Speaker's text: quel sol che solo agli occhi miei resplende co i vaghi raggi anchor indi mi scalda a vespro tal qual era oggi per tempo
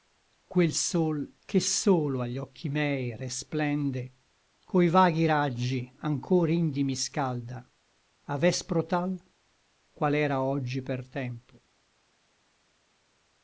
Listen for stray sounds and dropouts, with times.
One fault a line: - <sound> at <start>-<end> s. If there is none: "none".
none